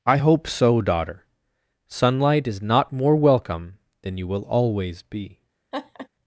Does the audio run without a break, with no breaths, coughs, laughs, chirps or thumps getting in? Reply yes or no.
no